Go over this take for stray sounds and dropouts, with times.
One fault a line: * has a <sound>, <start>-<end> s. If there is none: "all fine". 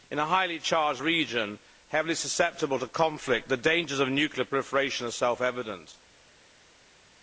all fine